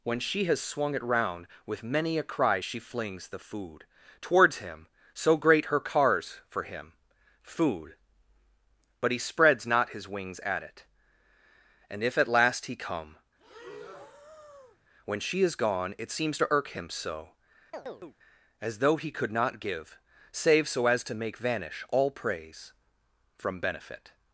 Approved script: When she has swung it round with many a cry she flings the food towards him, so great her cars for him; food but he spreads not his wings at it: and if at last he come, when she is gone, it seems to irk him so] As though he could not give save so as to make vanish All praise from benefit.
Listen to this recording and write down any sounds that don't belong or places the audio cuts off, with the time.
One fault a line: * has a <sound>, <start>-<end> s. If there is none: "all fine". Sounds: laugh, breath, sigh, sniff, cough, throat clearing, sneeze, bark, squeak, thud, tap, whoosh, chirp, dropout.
* has a breath, 13.4-14.8 s
* has a chirp, 17.7-18.2 s